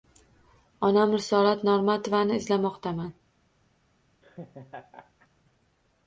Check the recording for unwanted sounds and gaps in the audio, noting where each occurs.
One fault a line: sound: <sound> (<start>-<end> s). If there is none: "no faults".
sound: laugh (4.2-5.3 s)